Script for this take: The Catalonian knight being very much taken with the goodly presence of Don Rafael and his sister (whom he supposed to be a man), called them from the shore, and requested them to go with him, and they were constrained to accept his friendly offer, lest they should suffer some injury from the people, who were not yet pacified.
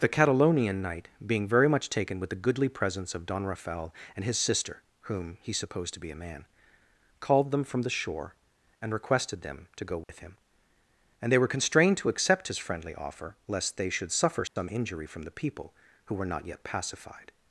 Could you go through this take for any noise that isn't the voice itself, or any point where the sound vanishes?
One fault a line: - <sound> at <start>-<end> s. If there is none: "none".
- dropout at 10.0-10.1 s
- dropout at 14.5-14.6 s